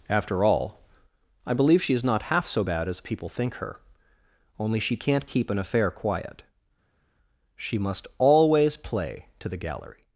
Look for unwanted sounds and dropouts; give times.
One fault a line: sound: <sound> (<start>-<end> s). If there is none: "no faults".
no faults